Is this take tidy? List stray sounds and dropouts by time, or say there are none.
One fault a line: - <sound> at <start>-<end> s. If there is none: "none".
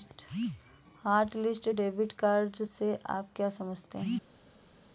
none